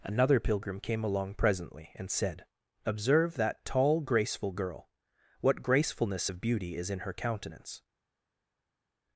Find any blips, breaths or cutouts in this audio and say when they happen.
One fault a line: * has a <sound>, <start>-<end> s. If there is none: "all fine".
all fine